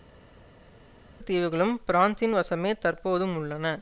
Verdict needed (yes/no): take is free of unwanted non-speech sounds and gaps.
yes